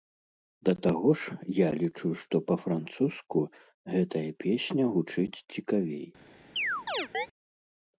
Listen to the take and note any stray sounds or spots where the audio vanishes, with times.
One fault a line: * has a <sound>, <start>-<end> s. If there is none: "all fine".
* has a chirp, 6.6-7.3 s